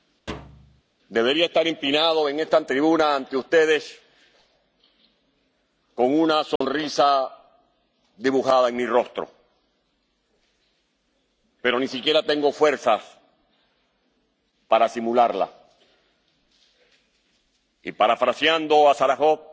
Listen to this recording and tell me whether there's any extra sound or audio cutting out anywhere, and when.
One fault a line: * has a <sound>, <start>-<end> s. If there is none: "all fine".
* has a thud, 0.3-0.8 s
* has a dropout, 6.6-6.6 s